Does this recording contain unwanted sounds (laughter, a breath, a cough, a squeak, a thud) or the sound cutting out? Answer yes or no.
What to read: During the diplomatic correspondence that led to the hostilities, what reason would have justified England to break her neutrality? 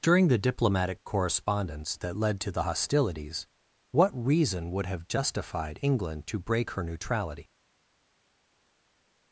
no